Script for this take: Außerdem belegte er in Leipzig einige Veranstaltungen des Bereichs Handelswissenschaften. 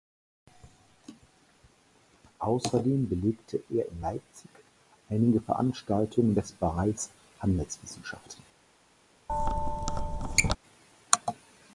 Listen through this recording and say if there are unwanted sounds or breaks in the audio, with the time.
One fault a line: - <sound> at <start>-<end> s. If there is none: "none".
- squeak at 9.3-10.6 s